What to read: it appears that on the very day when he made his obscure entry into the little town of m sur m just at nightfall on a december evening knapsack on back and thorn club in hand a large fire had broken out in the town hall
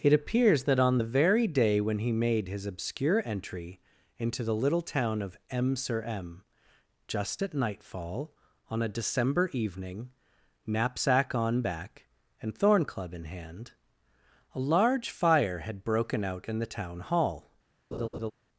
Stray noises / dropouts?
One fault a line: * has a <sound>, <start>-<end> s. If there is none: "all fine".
* has a laugh, 17.9-18.3 s